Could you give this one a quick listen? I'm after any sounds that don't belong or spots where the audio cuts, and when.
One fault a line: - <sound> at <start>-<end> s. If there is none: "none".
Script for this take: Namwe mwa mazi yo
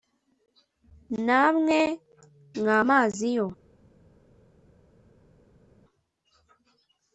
none